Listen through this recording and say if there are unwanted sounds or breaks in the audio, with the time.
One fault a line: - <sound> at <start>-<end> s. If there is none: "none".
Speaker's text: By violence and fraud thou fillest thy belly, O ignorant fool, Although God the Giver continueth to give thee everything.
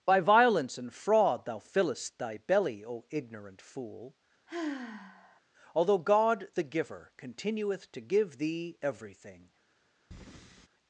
- sigh at 4.5-5.4 s
- breath at 10.1-10.7 s